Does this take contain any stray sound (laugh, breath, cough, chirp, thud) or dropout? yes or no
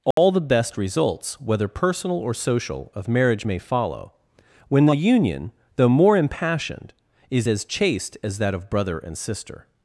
yes